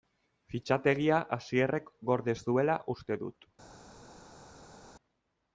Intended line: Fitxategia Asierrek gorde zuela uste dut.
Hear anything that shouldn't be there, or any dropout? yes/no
no